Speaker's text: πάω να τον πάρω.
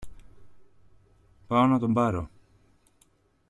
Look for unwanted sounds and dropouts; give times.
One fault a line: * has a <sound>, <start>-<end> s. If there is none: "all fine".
all fine